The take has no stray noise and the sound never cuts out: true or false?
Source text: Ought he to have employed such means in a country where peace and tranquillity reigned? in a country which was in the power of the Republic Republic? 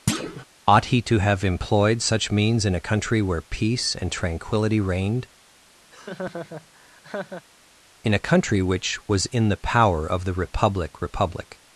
false